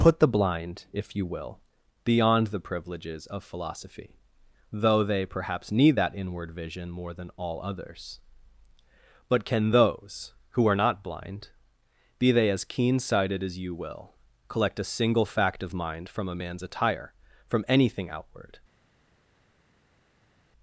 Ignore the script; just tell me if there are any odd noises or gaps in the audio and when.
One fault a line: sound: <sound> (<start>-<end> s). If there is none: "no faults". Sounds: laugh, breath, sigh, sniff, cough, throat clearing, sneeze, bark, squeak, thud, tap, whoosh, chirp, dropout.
no faults